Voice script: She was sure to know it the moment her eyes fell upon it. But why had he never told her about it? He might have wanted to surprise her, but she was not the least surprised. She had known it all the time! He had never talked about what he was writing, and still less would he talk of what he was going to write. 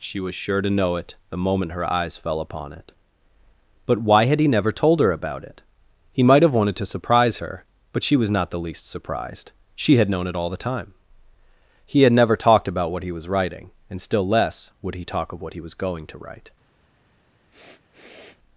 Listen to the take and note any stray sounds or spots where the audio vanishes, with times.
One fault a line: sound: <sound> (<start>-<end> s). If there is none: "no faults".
sound: sniff (17.5-18.4 s)